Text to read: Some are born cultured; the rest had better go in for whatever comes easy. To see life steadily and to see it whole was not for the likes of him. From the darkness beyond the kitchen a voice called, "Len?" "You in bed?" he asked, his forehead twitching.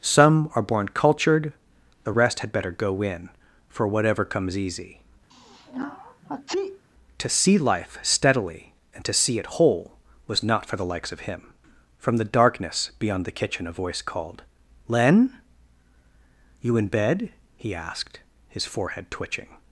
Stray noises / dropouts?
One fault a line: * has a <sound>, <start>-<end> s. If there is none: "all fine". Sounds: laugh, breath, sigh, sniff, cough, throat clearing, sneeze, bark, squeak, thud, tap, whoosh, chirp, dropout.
* has a sneeze, 5.3-6.9 s